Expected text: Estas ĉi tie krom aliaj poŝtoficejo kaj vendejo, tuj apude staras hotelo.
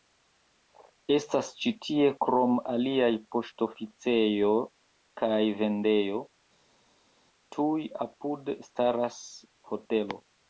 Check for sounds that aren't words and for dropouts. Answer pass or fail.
pass